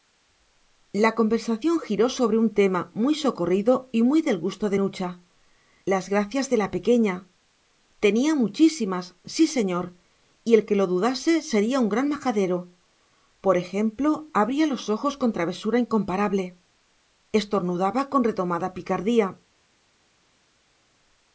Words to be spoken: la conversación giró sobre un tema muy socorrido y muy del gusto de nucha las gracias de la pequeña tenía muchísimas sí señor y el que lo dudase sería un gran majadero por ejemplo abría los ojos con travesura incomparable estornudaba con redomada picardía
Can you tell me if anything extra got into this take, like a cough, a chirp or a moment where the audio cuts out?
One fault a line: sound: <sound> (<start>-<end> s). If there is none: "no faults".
no faults